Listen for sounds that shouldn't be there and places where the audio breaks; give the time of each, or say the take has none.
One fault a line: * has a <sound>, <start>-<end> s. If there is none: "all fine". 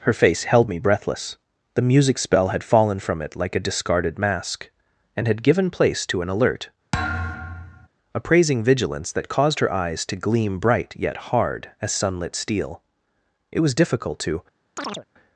* has a thud, 6.9-7.9 s
* has a chirp, 14.8-15.1 s